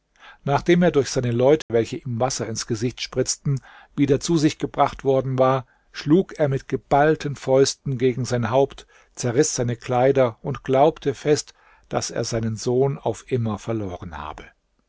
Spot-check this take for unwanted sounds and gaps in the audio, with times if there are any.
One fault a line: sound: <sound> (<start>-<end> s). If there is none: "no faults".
sound: dropout (1.6-1.7 s)